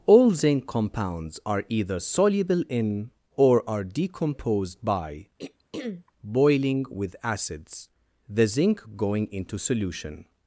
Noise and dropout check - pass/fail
fail